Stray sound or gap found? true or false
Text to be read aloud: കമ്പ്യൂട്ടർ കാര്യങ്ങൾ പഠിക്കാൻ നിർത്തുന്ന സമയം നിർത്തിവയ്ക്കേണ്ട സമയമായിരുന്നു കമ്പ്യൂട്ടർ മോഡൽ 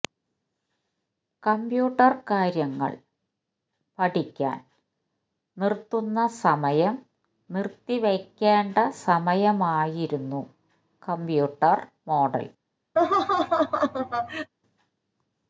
true